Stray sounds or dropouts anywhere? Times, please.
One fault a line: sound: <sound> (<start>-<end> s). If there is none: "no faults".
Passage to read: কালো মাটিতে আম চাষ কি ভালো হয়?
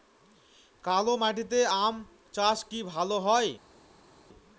no faults